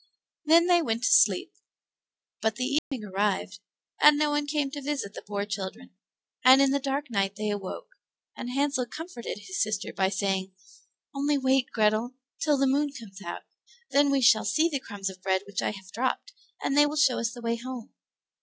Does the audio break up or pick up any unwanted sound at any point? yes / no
yes